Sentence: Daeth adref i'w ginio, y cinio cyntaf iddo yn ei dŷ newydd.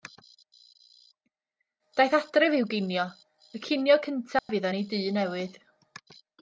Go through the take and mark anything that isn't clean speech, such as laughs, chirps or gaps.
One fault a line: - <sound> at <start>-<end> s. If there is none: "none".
- dropout at 4.4-4.5 s